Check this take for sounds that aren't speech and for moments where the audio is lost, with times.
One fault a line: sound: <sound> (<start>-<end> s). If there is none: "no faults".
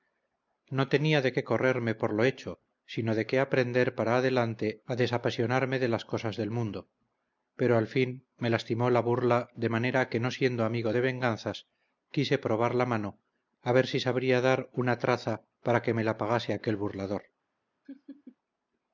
sound: laugh (17.8-18.4 s)